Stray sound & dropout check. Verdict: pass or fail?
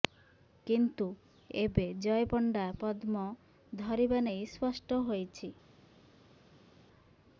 pass